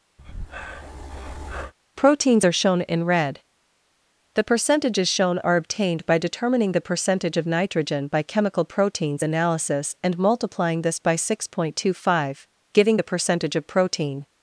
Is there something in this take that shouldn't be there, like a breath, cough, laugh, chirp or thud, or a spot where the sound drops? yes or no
yes